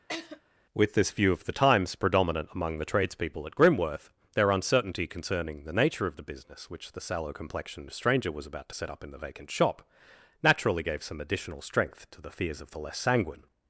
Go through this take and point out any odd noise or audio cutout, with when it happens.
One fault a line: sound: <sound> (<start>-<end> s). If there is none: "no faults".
sound: laugh (0.1-0.4 s)